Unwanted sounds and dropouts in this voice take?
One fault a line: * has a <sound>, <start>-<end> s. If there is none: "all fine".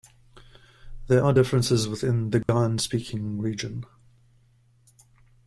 * has a dropout, 2.4-2.5 s